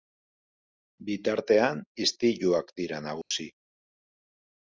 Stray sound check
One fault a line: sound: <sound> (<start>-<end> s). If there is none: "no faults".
sound: dropout (3.2-3.3 s)